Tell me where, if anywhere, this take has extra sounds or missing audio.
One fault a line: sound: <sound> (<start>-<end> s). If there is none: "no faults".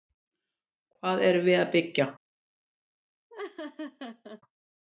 sound: laugh (3.3-4.4 s)